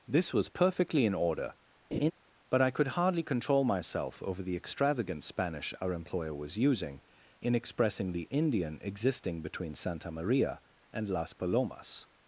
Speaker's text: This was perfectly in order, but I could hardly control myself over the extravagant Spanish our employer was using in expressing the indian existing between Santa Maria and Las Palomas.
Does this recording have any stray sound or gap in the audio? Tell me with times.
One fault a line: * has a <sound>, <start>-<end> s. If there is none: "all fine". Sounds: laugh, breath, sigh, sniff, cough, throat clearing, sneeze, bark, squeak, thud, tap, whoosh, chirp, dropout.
* has a laugh, 1.9-2.1 s